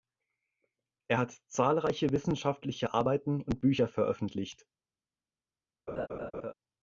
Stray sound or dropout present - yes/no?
yes